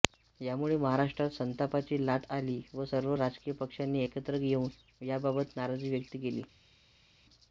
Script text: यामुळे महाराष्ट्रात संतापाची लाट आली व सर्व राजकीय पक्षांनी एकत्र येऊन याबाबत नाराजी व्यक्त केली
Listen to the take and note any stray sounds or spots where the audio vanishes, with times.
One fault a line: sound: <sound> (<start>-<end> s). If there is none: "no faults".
no faults